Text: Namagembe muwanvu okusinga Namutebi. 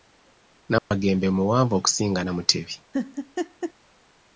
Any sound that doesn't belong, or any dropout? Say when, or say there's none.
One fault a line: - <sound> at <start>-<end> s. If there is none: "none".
- dropout at 0.8-0.9 s
- laugh at 2.9-3.7 s